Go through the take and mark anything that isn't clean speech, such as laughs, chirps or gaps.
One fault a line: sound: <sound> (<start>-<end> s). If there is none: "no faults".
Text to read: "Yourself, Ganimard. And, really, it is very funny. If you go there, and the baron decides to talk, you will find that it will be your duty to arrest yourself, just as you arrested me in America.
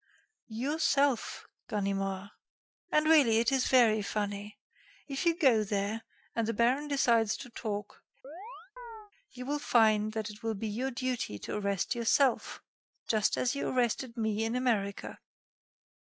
sound: chirp (8.2-9.1 s)